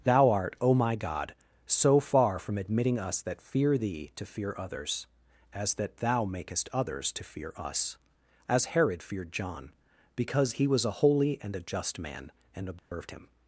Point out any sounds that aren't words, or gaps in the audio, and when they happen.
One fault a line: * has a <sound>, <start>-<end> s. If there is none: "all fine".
* has a dropout, 12.8-12.9 s